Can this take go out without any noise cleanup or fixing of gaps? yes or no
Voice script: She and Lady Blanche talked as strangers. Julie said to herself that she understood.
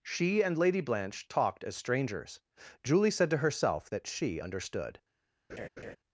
no